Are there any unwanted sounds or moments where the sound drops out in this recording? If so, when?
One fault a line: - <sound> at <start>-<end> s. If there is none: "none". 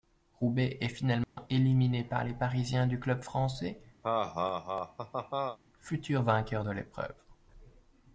- dropout at 1.2-1.4 s
- laugh at 4.0-5.6 s